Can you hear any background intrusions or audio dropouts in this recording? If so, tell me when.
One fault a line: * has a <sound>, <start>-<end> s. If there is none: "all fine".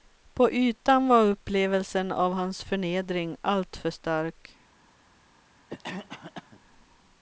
* has a cough, 5.7-6.6 s